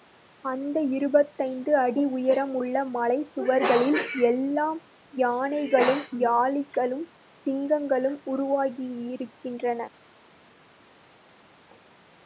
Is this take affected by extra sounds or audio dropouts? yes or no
no